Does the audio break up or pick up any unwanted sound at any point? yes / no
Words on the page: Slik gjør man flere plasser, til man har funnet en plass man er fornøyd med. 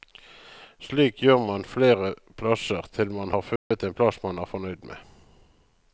yes